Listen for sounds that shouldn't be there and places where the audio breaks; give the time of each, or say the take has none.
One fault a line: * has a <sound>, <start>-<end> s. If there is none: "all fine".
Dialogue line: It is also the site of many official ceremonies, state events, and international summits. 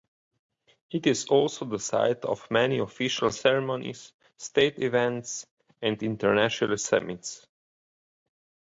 all fine